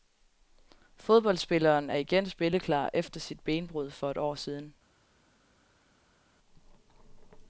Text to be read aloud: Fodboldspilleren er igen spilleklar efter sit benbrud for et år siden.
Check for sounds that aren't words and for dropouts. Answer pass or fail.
pass